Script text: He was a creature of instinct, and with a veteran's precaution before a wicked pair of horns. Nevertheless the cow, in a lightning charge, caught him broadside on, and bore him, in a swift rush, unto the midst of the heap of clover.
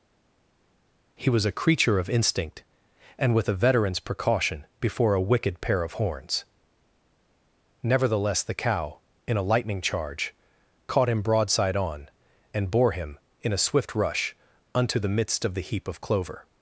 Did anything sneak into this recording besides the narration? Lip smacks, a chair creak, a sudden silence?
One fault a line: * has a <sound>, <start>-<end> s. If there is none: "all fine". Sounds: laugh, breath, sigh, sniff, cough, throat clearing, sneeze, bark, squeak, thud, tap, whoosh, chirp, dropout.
all fine